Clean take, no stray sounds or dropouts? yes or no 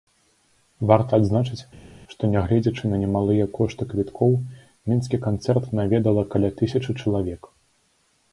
yes